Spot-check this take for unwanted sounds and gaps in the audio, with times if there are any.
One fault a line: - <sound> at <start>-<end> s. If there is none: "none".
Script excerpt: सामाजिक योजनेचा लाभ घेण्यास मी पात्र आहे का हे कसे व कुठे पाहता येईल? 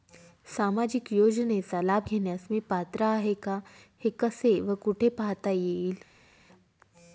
none